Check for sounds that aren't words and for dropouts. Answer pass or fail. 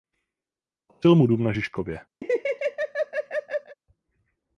fail